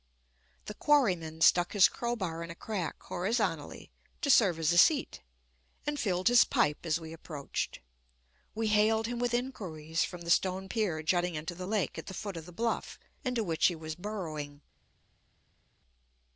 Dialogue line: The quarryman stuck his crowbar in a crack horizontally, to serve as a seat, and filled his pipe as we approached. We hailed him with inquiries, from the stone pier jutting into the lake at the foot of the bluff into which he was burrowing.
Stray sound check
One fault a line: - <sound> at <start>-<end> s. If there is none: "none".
none